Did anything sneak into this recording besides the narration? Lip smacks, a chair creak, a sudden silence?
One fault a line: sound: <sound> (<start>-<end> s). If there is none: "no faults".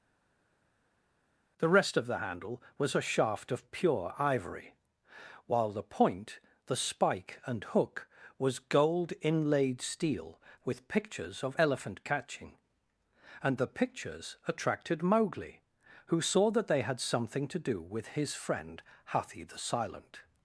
no faults